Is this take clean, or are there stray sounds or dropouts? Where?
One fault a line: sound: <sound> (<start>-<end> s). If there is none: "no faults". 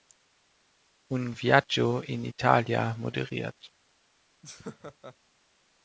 sound: laugh (4.4-5.2 s)